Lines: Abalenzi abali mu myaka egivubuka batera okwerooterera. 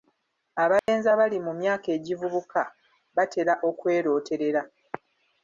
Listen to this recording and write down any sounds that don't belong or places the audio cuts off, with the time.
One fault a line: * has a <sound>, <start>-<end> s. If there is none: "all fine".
* has a dropout, 0.8-0.9 s